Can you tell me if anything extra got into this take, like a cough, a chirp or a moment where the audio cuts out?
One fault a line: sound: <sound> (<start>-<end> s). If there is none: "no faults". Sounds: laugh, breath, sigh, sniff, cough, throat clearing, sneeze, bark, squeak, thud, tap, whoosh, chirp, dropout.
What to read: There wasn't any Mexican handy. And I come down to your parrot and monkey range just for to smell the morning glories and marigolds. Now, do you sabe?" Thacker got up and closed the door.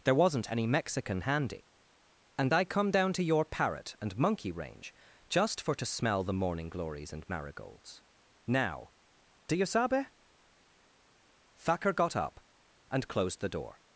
no faults